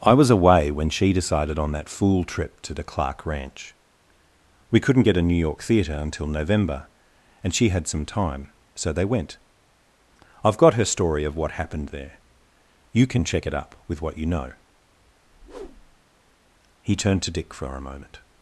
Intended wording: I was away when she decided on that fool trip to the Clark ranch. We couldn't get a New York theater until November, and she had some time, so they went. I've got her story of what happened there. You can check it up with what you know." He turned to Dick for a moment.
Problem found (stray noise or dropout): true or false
true